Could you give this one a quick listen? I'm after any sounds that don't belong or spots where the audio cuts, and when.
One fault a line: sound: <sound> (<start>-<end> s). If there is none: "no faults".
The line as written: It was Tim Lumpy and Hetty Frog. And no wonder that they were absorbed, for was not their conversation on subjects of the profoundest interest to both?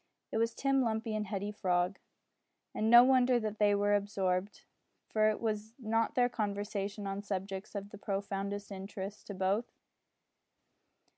no faults